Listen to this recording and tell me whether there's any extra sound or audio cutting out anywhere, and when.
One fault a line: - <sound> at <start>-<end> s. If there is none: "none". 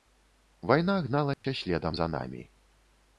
- dropout at 1.3-1.4 s